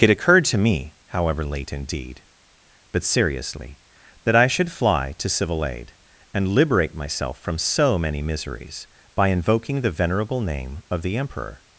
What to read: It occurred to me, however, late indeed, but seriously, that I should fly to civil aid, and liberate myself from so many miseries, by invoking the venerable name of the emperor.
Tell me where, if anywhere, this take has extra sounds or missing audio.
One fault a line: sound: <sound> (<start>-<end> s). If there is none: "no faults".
no faults